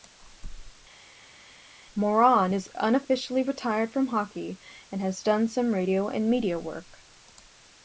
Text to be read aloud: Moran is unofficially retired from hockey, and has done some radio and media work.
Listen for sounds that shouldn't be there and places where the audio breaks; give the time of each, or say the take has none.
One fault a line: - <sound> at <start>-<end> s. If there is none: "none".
none